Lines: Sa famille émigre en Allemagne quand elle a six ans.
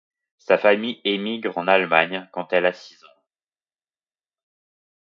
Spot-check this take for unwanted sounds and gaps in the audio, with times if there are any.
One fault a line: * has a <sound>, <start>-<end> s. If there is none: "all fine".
all fine